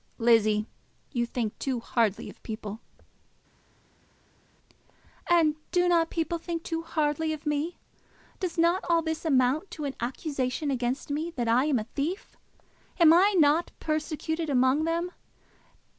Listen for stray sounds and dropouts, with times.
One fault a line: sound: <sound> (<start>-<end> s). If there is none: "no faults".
no faults